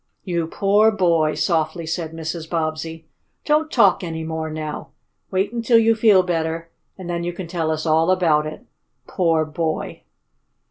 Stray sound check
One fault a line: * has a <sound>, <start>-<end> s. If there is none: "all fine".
all fine